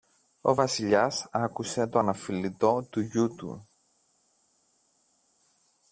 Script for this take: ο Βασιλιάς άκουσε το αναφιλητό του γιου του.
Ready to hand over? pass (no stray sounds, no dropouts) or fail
pass